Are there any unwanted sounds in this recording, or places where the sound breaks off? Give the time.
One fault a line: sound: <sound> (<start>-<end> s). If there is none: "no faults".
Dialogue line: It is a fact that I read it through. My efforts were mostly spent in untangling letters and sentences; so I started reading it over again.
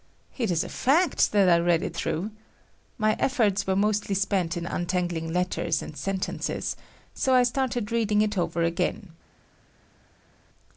no faults